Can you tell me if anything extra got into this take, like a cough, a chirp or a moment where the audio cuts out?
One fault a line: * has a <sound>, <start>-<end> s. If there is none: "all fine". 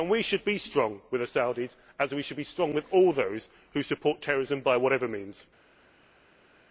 all fine